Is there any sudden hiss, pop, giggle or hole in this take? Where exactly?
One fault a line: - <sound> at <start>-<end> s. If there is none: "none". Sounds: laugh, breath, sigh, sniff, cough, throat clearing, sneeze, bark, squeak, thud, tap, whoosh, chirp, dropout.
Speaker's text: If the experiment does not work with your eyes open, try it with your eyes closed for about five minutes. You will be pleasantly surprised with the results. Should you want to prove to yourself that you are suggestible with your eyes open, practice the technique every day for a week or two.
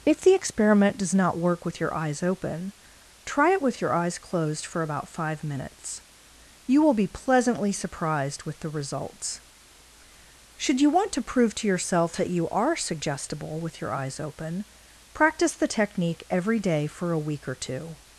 none